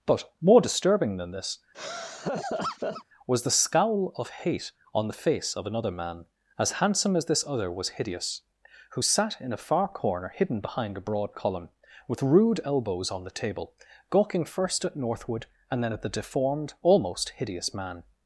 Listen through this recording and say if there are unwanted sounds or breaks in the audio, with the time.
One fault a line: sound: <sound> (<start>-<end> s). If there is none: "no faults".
sound: laugh (1.7-3.0 s)